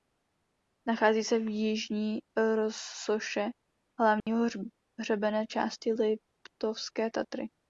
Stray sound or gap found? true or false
true